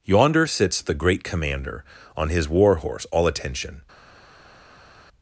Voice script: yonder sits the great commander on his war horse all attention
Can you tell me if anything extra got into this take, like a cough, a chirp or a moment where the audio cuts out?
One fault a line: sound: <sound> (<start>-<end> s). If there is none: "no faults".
no faults